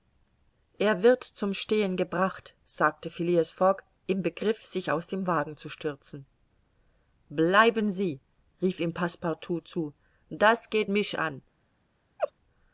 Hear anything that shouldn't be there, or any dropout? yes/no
yes